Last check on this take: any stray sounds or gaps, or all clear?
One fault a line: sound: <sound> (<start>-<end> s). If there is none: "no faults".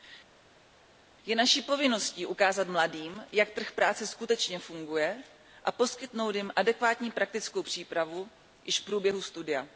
no faults